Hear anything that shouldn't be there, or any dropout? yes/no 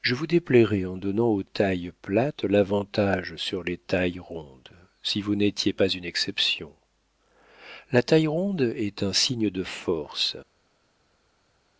no